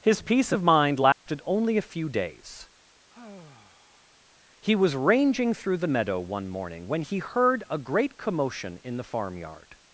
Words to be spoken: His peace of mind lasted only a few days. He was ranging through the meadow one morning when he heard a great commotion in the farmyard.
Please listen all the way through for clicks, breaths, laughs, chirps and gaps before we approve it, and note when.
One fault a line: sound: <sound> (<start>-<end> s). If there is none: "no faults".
sound: dropout (1.1-1.3 s)
sound: sigh (3.1-4.2 s)